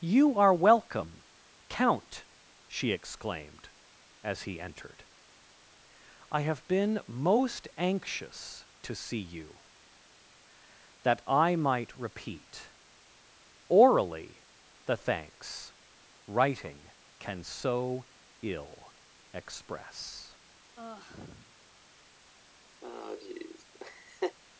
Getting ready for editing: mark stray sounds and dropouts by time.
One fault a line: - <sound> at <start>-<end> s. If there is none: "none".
- sigh at 20.8-21.6 s
- laugh at 22.8-24.4 s